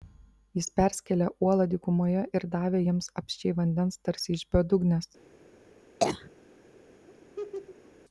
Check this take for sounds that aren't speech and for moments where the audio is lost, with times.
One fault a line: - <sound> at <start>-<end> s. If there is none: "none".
- cough at 6.0-6.3 s
- laugh at 7.1-7.9 s